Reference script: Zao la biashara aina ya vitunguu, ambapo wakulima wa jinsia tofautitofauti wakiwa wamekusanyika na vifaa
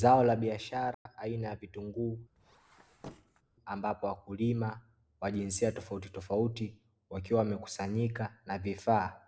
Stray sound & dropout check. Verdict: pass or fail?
fail